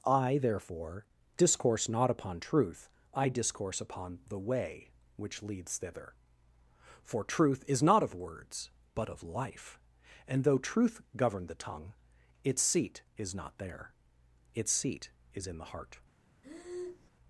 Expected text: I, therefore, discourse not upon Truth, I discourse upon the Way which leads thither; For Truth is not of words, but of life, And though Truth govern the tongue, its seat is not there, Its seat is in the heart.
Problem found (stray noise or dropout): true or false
true